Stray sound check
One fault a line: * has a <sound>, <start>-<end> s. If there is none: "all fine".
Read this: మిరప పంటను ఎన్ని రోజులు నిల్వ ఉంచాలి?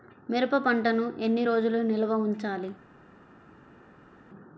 all fine